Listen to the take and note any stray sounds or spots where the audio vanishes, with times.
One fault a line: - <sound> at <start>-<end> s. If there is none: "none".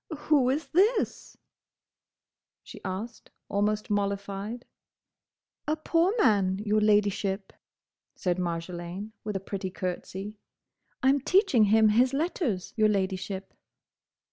none